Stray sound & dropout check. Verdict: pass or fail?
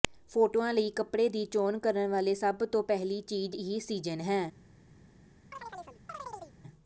fail